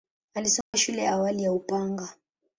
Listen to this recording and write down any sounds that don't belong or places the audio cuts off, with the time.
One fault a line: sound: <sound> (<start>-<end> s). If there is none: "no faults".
sound: dropout (0.6-0.7 s)